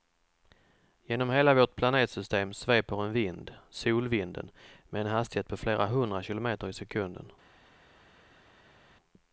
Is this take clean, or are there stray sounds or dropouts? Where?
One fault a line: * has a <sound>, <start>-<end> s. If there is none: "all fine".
all fine